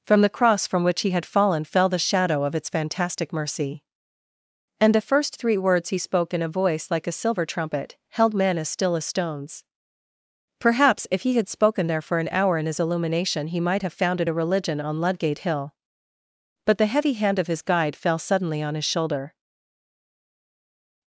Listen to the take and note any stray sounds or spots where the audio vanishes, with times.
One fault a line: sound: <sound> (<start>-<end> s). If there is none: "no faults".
no faults